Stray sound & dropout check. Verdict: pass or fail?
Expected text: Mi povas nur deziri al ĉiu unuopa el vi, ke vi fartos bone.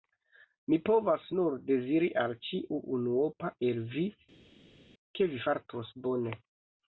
pass